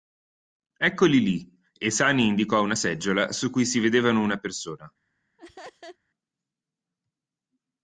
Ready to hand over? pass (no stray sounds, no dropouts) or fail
fail